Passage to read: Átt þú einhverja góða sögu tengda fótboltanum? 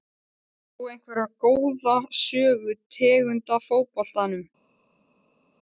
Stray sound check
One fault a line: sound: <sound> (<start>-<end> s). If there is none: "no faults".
no faults